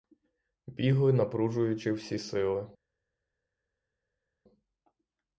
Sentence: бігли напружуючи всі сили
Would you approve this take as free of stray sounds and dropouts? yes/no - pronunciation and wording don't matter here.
yes